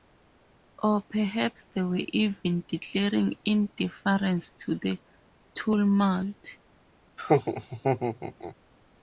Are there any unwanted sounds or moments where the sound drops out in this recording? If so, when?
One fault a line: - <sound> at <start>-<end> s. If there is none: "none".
- laugh at 7.2-8.6 s